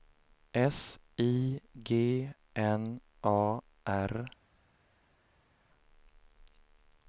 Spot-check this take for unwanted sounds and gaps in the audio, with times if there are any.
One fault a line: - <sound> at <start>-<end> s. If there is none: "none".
none